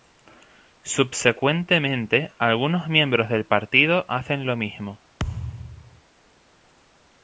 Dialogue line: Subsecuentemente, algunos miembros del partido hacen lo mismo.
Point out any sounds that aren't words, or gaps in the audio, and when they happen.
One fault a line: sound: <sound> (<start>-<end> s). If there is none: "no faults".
sound: thud (5.2-6.0 s)